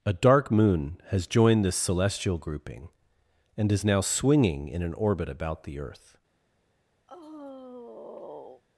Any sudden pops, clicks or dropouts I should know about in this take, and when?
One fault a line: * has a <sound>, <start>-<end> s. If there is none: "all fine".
* has a sigh, 7.1-8.6 s